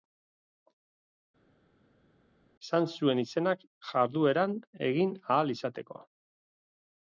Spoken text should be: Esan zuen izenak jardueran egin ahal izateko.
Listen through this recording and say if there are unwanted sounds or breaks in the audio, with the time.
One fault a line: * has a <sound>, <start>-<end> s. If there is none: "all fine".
all fine